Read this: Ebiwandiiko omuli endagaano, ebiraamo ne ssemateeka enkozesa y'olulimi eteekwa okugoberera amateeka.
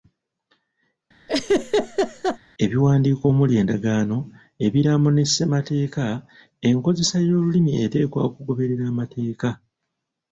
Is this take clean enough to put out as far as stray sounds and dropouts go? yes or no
no